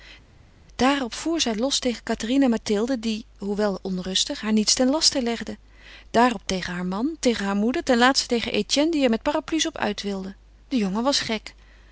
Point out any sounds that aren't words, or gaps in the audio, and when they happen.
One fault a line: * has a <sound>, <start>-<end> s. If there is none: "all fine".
all fine